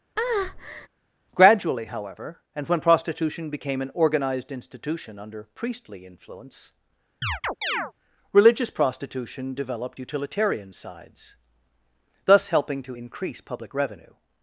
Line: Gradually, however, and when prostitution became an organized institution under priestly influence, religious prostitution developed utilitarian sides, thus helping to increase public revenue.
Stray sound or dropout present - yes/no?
yes